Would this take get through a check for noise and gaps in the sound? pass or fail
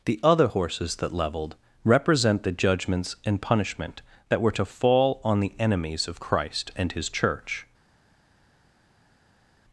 pass